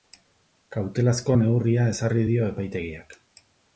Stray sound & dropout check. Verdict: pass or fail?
pass